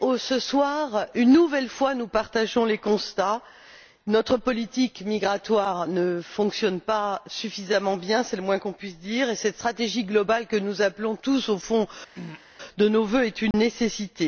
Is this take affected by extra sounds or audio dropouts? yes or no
yes